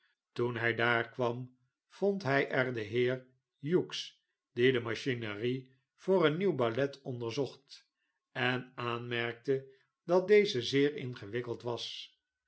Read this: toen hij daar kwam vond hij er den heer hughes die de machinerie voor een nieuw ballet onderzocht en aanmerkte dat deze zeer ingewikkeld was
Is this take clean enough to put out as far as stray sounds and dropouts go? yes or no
yes